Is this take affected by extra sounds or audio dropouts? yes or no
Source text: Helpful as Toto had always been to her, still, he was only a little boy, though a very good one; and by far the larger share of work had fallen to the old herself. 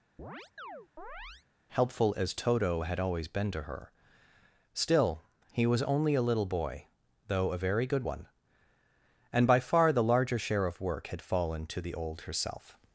yes